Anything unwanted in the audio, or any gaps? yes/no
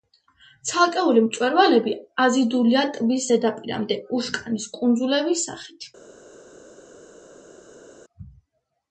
no